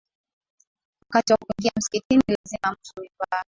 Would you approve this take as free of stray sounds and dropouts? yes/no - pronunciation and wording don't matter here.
no